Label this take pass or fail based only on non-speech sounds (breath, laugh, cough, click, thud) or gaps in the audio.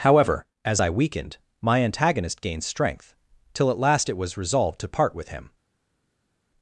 pass